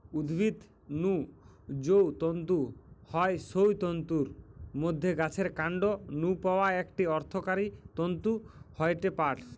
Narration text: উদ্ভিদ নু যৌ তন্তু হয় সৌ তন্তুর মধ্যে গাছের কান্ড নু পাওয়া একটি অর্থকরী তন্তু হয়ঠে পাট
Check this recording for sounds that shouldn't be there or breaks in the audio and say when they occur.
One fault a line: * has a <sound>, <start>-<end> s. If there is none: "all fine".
all fine